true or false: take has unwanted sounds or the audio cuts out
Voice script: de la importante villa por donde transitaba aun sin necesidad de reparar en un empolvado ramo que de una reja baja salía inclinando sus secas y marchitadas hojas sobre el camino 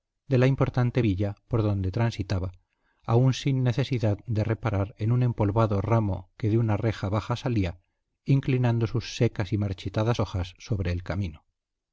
false